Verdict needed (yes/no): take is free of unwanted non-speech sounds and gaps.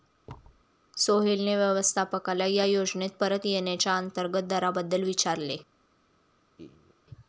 no